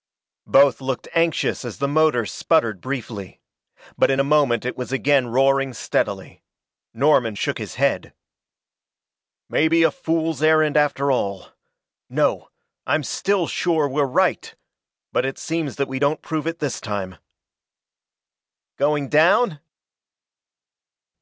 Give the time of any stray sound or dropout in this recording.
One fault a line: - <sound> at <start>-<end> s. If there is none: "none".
none